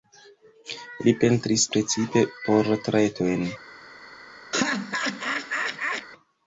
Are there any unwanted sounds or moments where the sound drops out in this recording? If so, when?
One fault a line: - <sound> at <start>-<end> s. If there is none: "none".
- laugh at 4.5-6.1 s